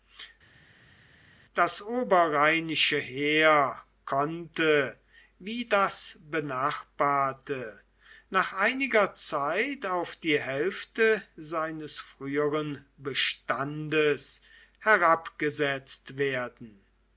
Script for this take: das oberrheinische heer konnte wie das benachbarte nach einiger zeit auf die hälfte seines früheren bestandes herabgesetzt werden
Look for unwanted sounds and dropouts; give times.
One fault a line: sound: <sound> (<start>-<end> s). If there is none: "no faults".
no faults